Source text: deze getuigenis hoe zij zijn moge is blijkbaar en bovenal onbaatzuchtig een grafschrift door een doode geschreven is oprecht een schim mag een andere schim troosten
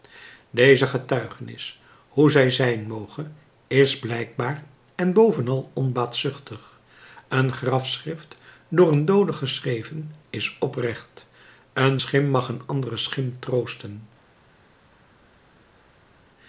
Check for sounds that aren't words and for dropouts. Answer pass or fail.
pass